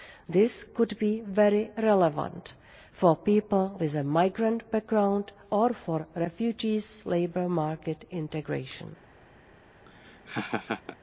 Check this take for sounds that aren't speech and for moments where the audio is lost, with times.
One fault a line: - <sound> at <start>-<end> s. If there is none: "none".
- laugh at 9.8-11.0 s